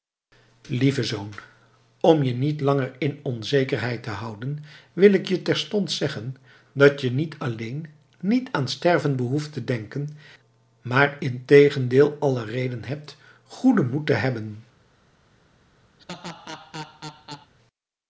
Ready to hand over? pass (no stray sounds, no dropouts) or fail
fail